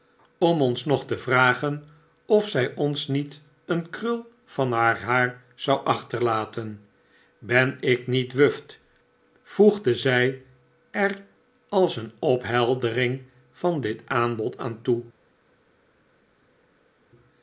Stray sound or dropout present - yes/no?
no